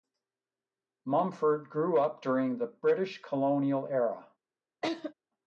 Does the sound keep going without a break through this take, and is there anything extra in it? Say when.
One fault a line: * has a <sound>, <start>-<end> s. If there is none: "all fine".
* has a laugh, 4.8-5.1 s